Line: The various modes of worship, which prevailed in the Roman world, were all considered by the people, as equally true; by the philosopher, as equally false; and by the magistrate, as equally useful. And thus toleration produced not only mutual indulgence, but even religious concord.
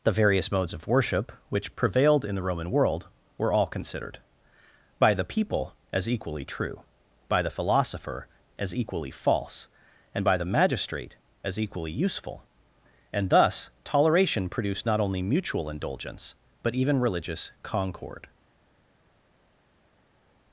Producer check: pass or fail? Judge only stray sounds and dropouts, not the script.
pass